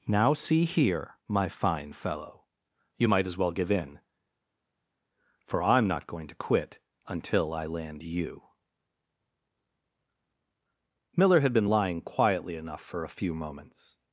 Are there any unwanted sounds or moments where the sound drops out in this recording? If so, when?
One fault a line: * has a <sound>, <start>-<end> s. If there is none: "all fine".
all fine